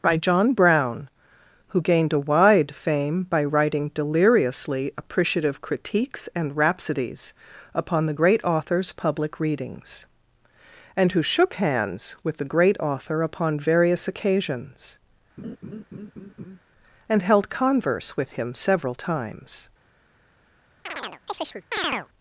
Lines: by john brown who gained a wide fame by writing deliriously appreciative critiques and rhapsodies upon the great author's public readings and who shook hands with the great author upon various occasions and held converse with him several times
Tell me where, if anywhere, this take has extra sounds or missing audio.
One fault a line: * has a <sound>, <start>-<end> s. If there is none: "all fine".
* has a laugh, 15.4-16.6 s
* has a chirp, 20.9-22.1 s